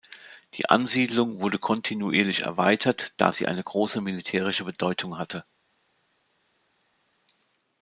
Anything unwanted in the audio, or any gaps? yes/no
no